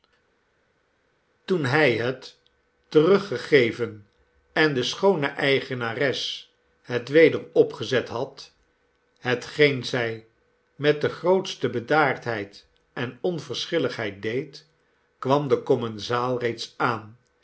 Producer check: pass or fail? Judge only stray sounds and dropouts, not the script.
pass